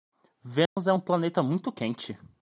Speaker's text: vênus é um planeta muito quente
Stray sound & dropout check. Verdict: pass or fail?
fail